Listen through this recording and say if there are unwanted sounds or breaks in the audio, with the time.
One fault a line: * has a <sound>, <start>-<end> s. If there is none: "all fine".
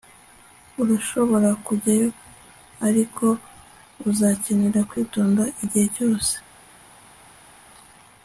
all fine